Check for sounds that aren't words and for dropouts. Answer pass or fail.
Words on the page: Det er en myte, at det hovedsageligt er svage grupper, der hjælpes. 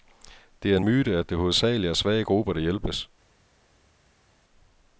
pass